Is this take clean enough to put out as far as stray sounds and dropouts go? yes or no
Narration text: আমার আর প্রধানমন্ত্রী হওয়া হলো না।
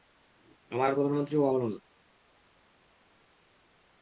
yes